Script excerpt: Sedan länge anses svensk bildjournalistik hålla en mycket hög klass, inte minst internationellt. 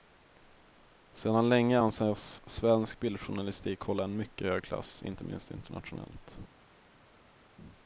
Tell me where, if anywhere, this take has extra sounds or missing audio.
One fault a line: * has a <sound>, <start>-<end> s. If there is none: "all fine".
all fine